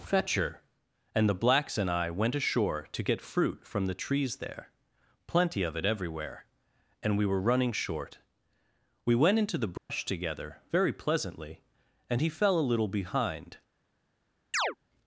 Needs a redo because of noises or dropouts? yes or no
yes